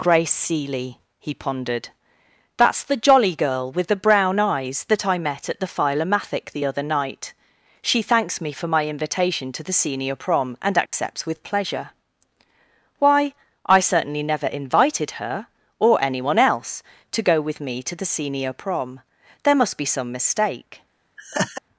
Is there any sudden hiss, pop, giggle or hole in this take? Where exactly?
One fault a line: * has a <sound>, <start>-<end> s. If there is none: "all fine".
* has a dropout, 10.9-10.9 s
* has a laugh, 21.2-21.6 s